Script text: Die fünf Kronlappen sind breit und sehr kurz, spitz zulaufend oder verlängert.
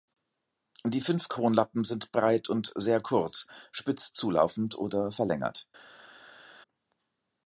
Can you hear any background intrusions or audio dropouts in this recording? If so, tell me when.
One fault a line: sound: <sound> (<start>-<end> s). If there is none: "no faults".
no faults